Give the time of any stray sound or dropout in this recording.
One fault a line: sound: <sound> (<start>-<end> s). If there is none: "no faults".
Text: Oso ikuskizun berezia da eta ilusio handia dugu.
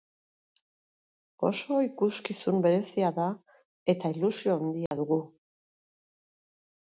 sound: dropout (4.9-4.9 s)